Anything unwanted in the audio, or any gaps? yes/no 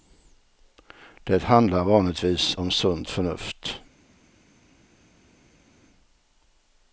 no